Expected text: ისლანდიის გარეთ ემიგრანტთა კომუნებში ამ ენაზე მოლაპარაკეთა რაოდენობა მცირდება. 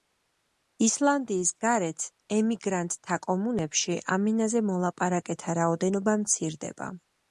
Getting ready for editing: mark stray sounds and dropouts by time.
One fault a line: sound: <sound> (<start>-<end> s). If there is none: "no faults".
no faults